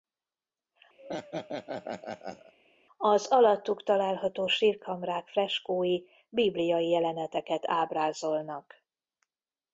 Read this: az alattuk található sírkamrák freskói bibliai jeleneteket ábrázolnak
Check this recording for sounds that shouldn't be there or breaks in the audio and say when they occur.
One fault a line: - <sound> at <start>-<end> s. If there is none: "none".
- laugh at 1.0-2.5 s